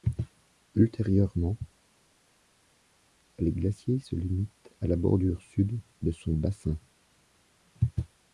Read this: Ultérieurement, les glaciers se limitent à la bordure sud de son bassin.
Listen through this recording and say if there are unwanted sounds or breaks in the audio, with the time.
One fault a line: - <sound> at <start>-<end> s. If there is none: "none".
none